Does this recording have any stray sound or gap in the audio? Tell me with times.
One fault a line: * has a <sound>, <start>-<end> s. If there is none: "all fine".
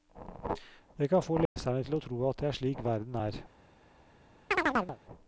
* has a dropout, 1.5-1.6 s
* has a chirp, 4.5-5.0 s